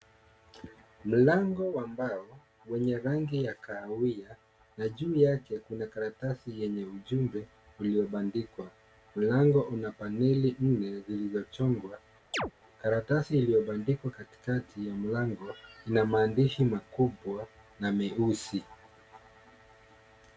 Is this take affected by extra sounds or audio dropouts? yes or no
yes